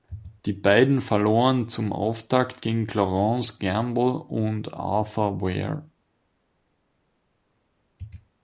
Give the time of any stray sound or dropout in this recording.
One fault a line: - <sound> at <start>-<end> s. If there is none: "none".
none